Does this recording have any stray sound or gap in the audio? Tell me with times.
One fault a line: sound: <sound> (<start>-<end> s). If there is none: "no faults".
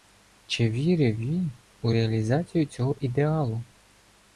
no faults